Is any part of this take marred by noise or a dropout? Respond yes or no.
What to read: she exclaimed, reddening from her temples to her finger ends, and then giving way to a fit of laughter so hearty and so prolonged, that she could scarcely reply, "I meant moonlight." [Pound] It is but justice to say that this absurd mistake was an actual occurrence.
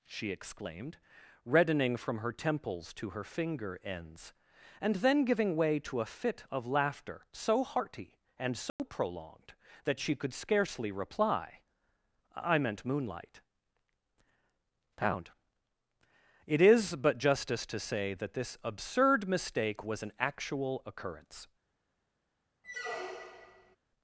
yes